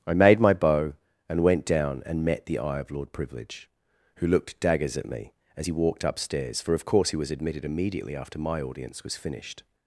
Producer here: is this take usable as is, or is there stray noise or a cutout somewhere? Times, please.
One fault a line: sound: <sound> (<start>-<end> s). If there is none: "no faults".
no faults